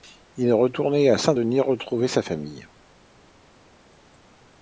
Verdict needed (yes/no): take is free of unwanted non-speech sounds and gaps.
yes